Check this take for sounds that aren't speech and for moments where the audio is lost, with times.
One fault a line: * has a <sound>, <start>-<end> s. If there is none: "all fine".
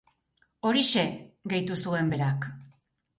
all fine